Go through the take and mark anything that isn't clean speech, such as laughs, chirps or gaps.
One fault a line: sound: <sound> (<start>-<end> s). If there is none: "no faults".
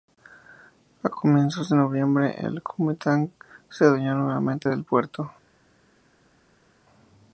no faults